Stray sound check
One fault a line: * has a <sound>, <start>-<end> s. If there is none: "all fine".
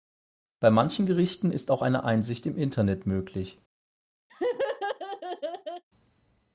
* has a laugh, 4.3-5.8 s